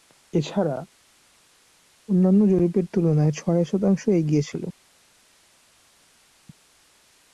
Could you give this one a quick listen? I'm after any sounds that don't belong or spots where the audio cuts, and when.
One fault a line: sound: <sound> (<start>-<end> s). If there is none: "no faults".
no faults